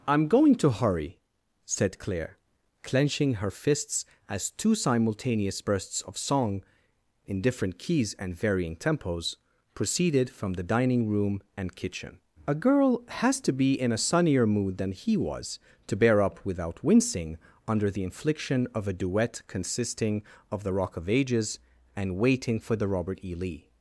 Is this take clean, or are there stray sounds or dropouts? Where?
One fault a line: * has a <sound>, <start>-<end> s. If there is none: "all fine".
all fine